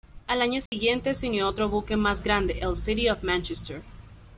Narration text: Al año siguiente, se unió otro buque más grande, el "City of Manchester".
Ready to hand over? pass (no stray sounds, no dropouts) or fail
fail